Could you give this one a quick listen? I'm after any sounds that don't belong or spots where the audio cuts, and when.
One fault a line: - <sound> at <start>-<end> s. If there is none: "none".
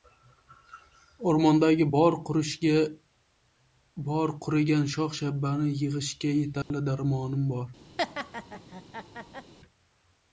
- dropout at 6.6-6.7 s
- laugh at 8.0-9.5 s